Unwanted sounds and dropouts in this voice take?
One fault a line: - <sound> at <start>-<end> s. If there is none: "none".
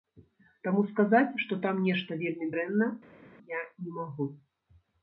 none